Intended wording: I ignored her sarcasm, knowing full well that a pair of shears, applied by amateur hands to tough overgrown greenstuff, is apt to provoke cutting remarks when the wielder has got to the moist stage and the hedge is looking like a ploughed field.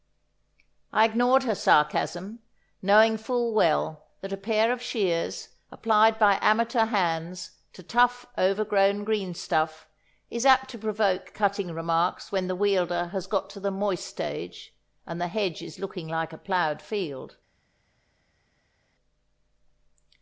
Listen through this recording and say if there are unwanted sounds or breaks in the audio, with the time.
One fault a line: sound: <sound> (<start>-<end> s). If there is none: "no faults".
no faults